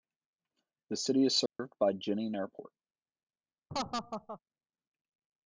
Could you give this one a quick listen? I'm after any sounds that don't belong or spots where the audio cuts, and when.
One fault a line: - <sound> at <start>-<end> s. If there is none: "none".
- dropout at 1.5-1.6 s
- laugh at 3.7-4.4 s